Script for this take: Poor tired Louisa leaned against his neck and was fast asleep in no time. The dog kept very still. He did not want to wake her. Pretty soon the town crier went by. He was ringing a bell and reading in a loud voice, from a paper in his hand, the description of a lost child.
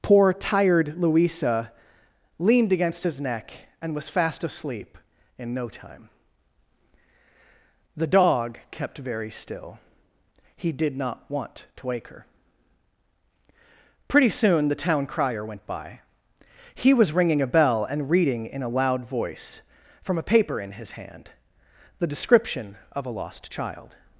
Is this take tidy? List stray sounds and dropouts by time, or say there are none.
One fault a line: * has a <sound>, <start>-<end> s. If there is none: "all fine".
all fine